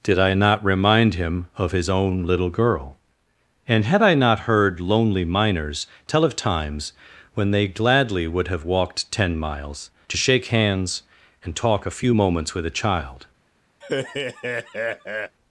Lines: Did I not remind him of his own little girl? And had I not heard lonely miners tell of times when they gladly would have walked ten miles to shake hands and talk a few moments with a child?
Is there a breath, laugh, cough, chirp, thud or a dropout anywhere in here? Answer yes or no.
yes